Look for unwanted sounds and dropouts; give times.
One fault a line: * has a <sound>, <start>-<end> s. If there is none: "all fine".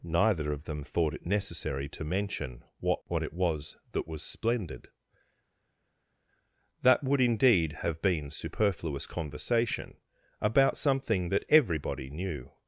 all fine